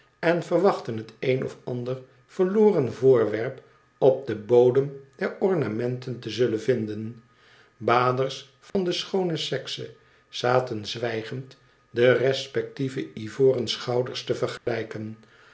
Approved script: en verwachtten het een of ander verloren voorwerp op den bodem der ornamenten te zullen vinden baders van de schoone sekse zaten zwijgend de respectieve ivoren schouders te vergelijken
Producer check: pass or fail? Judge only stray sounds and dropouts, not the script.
fail